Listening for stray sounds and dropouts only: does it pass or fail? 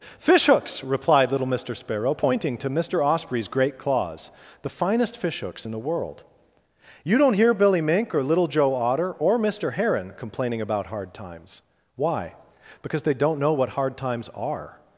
pass